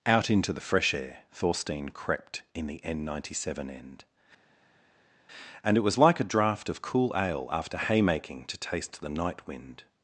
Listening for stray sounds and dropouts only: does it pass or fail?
pass